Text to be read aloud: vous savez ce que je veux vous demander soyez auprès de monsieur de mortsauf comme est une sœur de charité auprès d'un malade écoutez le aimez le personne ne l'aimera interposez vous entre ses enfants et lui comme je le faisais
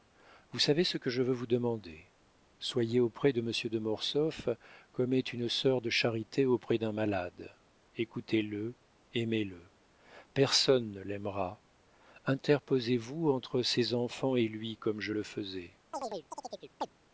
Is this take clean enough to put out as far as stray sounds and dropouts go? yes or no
no